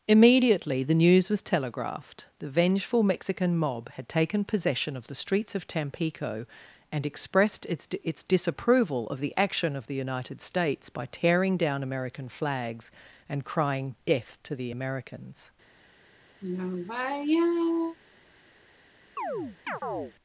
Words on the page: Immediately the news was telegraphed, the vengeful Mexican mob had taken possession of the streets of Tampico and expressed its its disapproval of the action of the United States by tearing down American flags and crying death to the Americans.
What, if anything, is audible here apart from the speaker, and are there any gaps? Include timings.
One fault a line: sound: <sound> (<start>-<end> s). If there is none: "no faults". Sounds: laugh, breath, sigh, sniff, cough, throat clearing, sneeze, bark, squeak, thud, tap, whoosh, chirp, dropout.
sound: sigh (16.4-18.0 s)
sound: chirp (19.2-20.1 s)